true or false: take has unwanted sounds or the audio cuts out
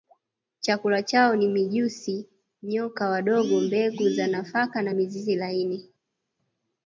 false